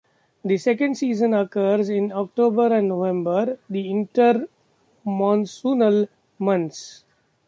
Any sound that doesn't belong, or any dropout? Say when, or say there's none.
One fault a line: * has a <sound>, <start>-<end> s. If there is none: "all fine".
all fine